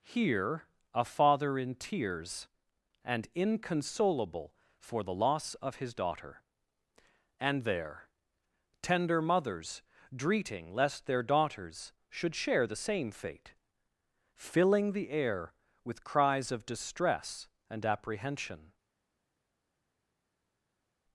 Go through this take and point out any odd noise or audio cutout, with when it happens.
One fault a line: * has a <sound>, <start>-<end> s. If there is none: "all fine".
all fine